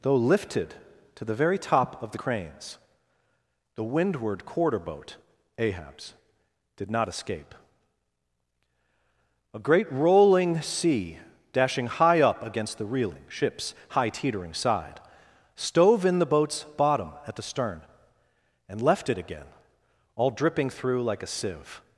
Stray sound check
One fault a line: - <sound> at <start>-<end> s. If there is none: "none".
none